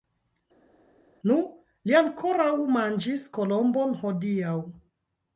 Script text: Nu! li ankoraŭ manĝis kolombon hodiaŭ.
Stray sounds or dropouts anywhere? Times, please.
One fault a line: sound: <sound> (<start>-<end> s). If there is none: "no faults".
no faults